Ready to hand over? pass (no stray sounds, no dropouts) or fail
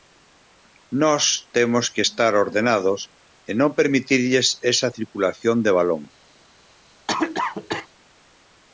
fail